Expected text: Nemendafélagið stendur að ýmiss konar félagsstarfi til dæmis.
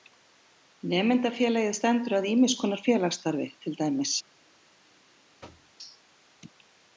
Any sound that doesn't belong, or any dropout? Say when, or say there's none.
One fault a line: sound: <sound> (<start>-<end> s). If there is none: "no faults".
sound: thud (5.4-5.7 s)